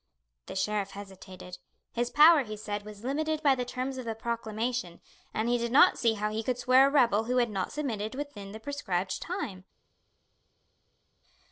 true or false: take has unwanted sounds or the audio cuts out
false